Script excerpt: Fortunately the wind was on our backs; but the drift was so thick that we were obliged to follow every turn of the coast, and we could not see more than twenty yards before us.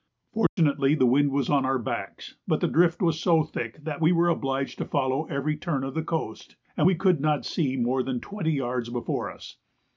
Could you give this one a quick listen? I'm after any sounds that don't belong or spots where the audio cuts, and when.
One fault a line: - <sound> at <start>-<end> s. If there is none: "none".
- dropout at 0.5-0.6 s